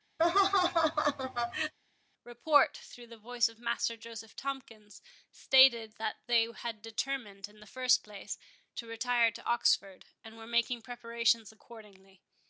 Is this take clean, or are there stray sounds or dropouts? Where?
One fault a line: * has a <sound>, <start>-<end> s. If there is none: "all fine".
* has a laugh, 0.2-1.7 s